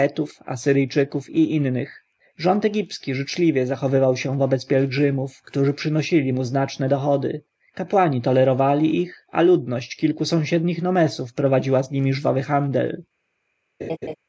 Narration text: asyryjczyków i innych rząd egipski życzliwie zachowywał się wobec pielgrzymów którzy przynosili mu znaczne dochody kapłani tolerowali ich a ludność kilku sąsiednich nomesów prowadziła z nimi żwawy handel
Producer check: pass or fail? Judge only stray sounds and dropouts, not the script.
fail